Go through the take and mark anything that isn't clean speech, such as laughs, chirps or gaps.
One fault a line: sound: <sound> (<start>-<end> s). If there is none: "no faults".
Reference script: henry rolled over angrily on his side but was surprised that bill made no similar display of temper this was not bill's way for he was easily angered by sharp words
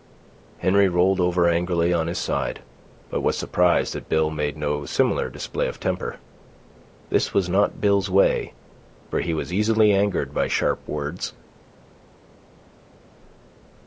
no faults